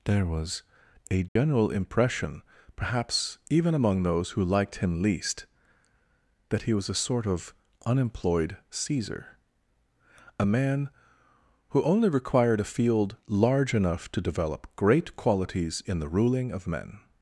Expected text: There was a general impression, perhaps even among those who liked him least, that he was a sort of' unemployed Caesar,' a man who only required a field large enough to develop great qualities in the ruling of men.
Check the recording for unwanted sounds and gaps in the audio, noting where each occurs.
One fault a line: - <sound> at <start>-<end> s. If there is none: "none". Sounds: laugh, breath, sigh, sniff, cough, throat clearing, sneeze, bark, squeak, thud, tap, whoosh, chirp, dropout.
- dropout at 1.3-1.4 s